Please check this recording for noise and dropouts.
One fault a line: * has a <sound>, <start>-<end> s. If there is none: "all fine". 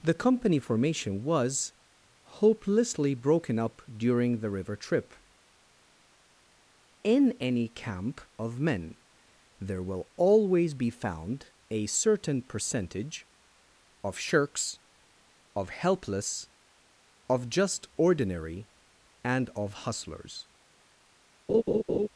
* has a laugh, 21.5-22.1 s